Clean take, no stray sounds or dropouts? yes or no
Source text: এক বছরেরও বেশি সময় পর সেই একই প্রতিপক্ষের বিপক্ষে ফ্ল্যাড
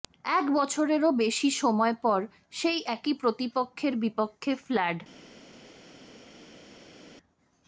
yes